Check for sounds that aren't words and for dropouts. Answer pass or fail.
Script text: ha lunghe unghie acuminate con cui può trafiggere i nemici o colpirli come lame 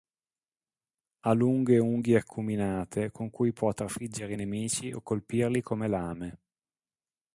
pass